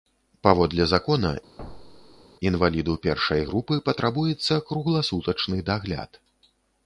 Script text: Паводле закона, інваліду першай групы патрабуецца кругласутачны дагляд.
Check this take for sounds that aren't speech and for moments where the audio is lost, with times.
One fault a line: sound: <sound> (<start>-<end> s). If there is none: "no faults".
sound: thud (1.6-2.3 s)